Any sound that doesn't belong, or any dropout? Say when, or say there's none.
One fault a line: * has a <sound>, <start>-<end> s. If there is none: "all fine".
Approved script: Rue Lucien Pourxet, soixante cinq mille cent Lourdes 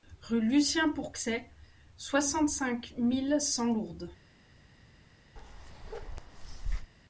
* has a bark, 5.4-6.9 s